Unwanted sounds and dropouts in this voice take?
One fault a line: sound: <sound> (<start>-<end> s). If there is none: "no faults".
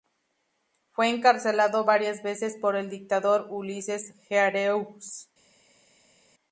no faults